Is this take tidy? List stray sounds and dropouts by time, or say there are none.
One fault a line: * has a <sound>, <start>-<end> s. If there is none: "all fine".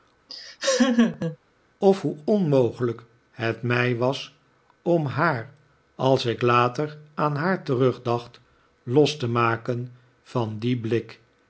* has a laugh, 0.3-1.4 s